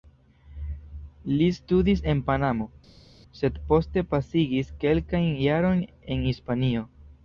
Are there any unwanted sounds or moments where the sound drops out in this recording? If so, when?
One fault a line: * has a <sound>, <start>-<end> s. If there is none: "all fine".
all fine